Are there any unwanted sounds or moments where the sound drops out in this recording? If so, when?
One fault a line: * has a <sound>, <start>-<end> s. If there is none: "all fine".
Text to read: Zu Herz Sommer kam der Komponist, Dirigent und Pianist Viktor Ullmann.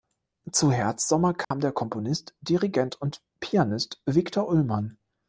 * has a dropout, 1.4-1.5 s